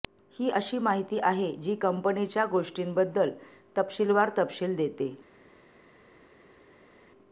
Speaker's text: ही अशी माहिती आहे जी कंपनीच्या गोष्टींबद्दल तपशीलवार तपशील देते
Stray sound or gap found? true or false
false